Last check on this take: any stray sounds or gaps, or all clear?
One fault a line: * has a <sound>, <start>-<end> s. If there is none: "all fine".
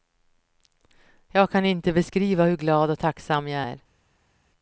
all fine